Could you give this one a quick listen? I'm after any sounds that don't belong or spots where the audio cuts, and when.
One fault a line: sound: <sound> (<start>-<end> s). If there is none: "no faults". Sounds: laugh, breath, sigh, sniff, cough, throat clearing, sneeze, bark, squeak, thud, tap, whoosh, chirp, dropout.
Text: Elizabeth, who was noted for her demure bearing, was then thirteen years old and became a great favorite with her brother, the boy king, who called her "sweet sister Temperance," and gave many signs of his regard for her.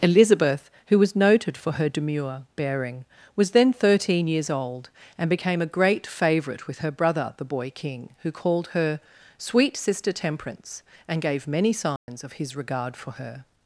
sound: dropout (12.0-12.1 s)